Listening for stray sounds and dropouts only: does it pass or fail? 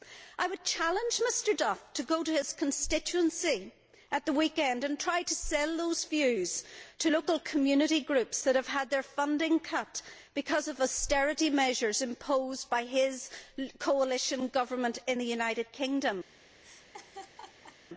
fail